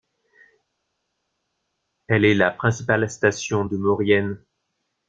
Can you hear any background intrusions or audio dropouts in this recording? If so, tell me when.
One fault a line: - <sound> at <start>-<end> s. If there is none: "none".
none